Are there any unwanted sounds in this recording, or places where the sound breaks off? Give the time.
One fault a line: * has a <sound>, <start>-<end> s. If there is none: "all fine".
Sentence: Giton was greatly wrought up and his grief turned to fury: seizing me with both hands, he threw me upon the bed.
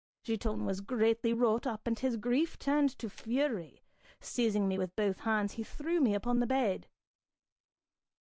all fine